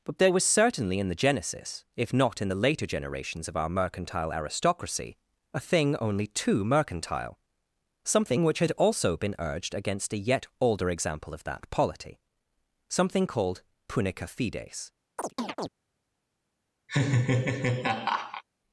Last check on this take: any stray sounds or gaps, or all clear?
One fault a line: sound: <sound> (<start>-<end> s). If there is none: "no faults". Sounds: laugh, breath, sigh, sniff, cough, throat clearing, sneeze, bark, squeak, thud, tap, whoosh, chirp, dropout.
sound: chirp (15.2-15.7 s)
sound: laugh (16.9-18.4 s)